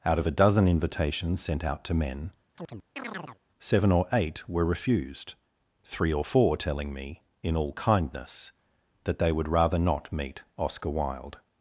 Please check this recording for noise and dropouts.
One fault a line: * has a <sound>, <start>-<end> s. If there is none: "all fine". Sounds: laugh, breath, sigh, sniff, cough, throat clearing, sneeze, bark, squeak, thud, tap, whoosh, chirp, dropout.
* has a chirp, 2.6-3.4 s